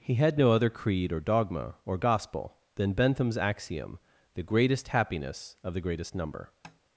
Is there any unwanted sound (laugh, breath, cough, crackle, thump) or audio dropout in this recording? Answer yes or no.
yes